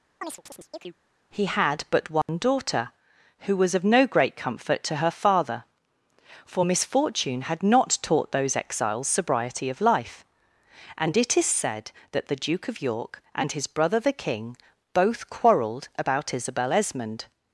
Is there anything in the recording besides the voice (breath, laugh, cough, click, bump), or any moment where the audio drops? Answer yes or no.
yes